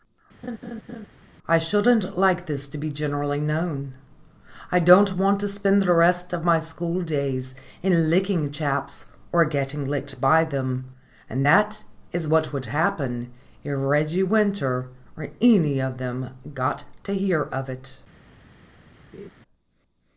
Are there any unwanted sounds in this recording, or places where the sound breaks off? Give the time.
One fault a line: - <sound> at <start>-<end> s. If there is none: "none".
- laugh at 0.4-1.1 s
- laugh at 19.1-19.3 s